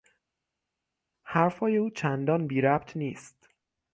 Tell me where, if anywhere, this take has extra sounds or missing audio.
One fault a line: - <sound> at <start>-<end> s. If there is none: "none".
none